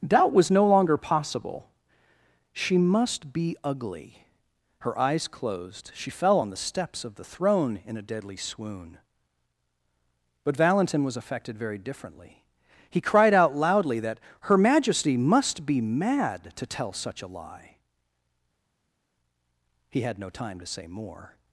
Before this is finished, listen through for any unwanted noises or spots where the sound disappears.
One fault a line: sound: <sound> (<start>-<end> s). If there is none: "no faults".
no faults